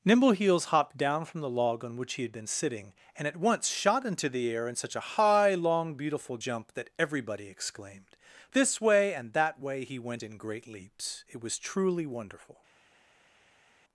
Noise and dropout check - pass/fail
pass